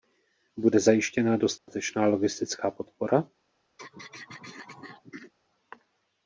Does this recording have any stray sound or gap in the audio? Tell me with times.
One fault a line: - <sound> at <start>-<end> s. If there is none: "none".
- dropout at 1.6-1.7 s
- throat clearing at 3.8-5.3 s